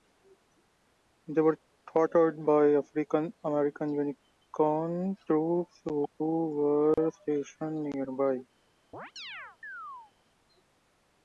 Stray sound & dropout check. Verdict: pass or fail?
fail